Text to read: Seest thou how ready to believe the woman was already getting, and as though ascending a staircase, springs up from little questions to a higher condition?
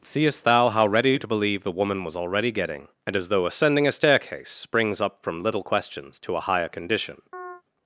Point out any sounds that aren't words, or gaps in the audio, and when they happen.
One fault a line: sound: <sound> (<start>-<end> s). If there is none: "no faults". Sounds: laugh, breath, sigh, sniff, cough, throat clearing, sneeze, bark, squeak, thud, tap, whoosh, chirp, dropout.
sound: chirp (7.3-7.6 s)